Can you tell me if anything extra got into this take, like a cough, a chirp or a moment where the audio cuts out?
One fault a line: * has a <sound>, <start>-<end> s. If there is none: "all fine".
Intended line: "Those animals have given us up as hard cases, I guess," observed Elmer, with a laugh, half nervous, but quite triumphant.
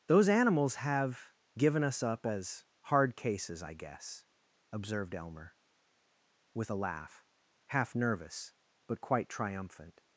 all fine